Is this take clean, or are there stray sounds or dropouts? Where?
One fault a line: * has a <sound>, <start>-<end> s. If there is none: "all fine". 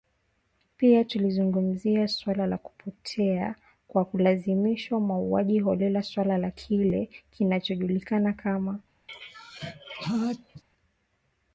* has a sneeze, 9.1-10.6 s